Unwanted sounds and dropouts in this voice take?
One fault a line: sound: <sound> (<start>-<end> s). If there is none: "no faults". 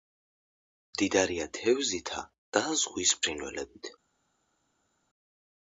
no faults